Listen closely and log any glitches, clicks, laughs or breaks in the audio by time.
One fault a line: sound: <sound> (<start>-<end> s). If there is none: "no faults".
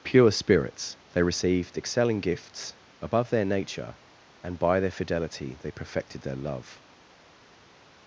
no faults